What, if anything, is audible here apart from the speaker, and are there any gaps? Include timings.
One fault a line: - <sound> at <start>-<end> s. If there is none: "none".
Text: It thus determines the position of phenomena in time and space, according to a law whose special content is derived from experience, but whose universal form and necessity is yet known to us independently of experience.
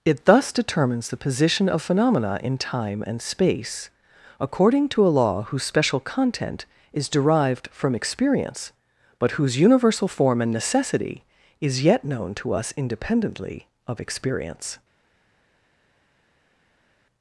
none